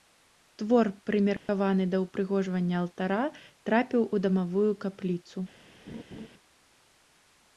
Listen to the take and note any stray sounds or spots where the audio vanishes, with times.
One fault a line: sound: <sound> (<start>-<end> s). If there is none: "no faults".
sound: dropout (1.4-1.5 s)
sound: laugh (5.9-6.3 s)